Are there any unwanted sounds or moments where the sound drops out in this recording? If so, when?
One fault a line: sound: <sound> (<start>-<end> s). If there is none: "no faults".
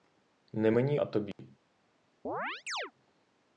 sound: dropout (1.3-1.4 s)
sound: chirp (2.2-2.9 s)